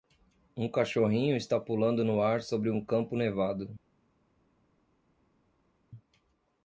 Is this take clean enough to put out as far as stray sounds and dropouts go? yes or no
yes